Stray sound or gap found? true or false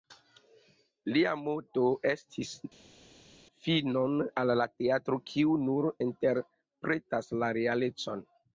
false